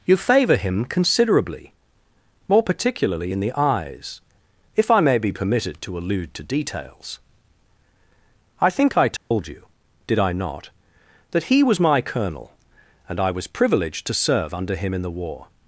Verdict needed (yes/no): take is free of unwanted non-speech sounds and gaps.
no